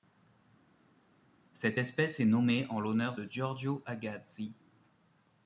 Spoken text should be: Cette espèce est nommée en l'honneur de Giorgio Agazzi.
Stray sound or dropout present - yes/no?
no